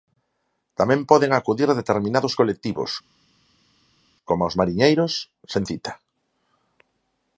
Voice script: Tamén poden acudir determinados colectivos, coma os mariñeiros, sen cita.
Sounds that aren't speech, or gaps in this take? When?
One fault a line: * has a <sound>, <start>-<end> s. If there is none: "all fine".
all fine